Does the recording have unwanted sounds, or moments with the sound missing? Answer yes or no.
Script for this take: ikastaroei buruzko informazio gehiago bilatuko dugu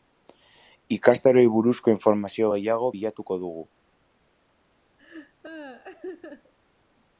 yes